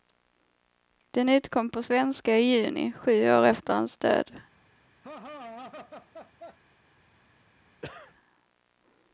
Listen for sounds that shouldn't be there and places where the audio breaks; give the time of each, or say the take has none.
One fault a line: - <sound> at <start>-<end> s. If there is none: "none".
- laugh at 5.0-6.6 s
- cough at 7.8-8.1 s